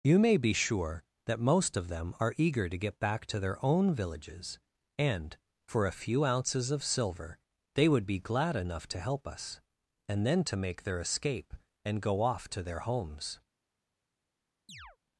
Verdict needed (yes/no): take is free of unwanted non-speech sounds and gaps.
no